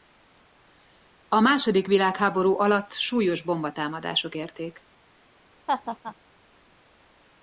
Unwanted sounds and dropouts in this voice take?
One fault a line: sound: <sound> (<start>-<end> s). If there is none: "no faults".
sound: laugh (5.7-6.2 s)